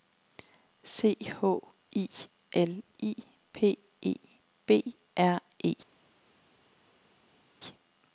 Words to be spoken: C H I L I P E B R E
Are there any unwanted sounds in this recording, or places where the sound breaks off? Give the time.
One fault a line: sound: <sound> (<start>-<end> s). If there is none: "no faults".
no faults